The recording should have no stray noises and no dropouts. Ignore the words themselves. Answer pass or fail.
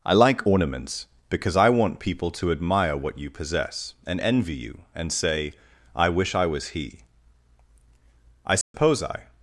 fail